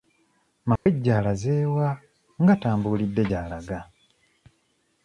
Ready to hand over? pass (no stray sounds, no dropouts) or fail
fail